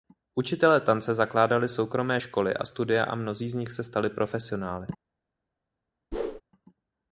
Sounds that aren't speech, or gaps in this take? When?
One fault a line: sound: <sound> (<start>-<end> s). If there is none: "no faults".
sound: whoosh (6.1-6.4 s)